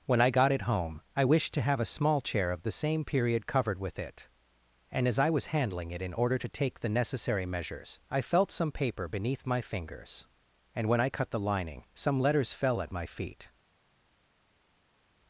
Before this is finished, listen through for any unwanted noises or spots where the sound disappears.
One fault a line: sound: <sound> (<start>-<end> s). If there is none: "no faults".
no faults